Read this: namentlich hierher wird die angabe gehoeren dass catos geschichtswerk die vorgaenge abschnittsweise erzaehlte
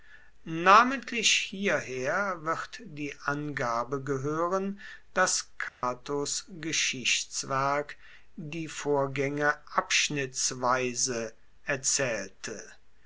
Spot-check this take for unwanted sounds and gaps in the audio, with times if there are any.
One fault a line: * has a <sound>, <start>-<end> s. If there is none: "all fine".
* has a dropout, 5.7-5.8 s